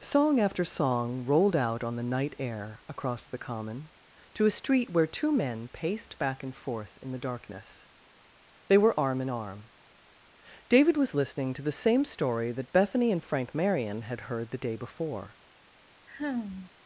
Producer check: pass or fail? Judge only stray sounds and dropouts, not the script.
fail